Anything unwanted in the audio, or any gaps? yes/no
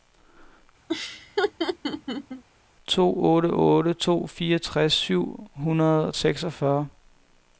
yes